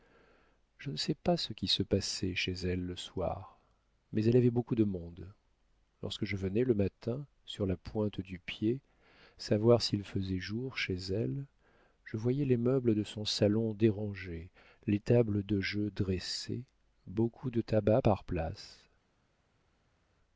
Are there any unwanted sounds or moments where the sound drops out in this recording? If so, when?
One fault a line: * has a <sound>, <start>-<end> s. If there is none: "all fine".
all fine